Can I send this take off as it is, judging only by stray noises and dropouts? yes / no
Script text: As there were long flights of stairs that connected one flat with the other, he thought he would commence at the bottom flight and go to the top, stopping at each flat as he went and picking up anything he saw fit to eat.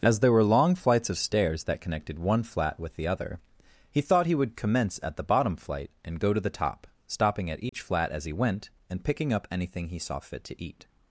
no